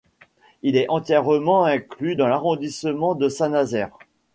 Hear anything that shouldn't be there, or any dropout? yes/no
no